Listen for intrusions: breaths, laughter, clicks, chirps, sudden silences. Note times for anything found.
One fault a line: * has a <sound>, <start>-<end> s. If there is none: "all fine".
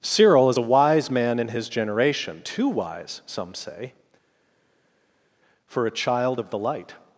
all fine